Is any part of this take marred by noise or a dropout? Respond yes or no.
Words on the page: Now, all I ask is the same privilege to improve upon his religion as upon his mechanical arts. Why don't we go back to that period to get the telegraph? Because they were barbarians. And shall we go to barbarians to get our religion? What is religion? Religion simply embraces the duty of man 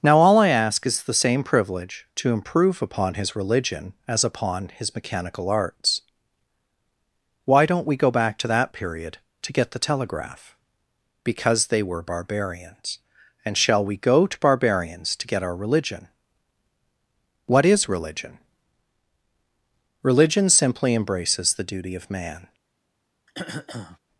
yes